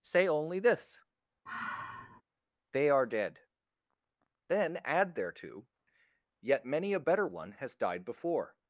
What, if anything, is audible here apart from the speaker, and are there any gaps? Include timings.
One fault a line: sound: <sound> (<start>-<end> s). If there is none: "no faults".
sound: sigh (1.5-2.2 s)